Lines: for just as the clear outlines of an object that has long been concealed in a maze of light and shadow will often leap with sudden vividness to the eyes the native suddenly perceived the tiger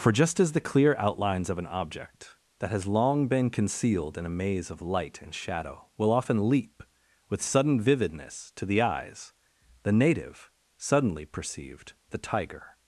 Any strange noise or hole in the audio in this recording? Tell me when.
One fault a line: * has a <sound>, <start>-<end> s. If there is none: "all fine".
all fine